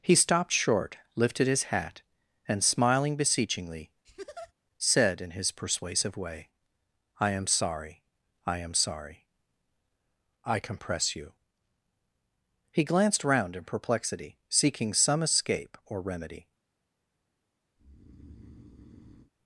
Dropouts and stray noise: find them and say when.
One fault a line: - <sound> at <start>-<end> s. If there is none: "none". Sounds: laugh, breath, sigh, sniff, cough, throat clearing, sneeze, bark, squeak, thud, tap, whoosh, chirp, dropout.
- laugh at 4.0-4.5 s
- breath at 17.8-19.3 s